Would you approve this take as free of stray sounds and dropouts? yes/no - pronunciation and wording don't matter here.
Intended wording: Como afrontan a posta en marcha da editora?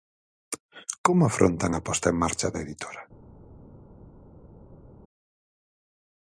yes